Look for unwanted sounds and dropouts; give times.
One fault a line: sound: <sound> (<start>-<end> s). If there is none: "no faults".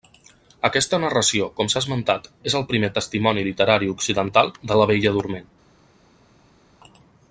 no faults